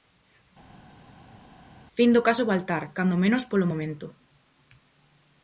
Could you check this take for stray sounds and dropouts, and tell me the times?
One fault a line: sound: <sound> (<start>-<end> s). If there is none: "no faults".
no faults